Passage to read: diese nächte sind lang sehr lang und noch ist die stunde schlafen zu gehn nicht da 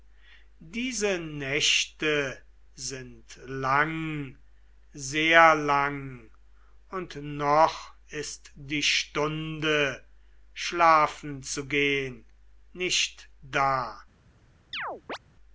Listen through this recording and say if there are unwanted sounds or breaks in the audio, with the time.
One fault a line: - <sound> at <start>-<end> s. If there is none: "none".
- chirp at 14.7-15.2 s